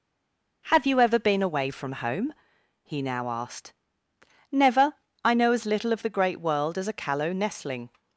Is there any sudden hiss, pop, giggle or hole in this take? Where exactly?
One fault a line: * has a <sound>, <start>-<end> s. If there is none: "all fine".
all fine